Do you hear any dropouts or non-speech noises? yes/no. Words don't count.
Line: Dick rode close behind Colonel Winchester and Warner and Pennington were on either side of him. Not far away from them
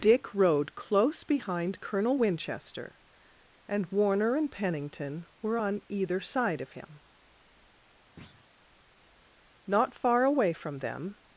yes